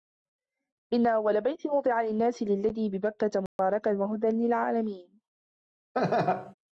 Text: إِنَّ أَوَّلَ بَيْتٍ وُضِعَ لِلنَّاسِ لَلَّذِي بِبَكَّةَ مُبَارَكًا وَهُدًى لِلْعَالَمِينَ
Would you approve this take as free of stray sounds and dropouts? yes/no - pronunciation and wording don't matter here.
no